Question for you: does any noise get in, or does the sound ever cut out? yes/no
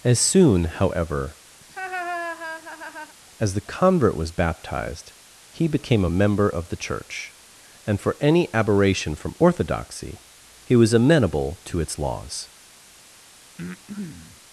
yes